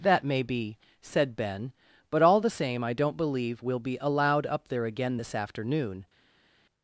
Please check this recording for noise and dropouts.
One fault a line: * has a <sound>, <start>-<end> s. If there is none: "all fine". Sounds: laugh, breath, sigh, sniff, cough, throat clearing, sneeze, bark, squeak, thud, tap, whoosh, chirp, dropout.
all fine